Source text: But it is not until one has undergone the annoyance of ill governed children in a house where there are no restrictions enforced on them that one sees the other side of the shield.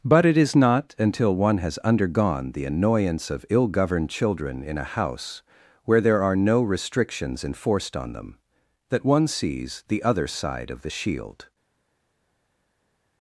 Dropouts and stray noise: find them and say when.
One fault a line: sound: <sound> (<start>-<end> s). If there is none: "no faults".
no faults